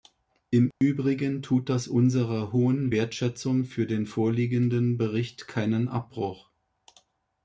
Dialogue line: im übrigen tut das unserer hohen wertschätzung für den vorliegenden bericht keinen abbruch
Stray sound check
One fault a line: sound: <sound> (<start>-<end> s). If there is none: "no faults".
sound: dropout (0.7-0.8 s)